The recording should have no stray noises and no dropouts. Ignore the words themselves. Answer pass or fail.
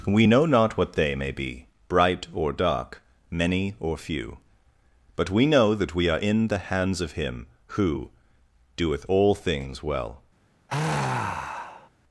fail